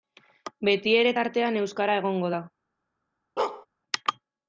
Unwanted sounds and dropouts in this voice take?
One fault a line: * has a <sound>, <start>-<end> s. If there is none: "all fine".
* has a bark, 3.4-3.7 s